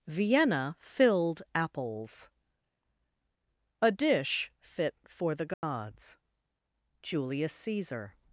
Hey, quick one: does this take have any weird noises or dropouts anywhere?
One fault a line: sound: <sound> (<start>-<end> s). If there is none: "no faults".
sound: dropout (5.5-5.6 s)